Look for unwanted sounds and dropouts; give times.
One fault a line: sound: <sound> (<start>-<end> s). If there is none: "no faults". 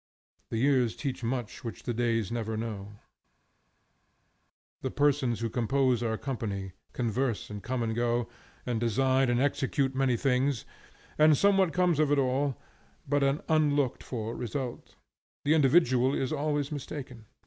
no faults